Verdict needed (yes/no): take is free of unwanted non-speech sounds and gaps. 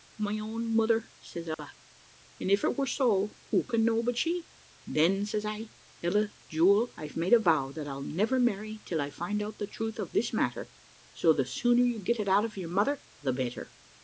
no